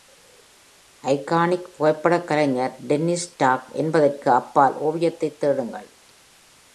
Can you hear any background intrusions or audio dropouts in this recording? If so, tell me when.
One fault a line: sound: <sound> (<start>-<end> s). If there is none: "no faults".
no faults